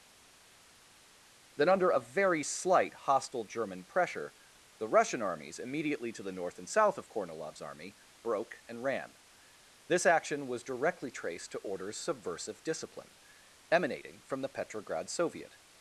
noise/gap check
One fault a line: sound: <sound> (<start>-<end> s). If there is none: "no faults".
no faults